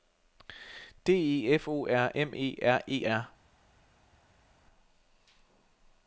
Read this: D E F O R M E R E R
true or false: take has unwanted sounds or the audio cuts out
false